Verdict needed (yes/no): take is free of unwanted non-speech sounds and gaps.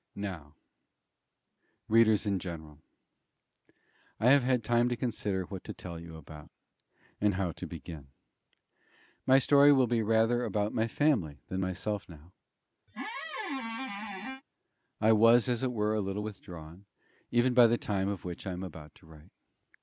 no